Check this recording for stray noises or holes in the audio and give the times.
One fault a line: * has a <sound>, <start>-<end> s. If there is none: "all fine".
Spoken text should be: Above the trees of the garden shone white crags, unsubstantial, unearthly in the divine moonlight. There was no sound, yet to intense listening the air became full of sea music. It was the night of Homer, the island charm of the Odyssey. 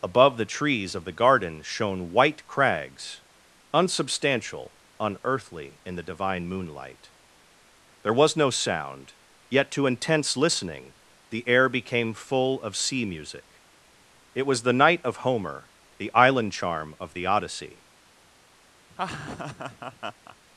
* has a laugh, 18.9-20.4 s